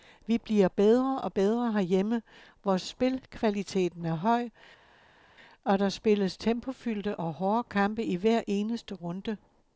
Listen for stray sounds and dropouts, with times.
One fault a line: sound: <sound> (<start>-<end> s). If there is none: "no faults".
no faults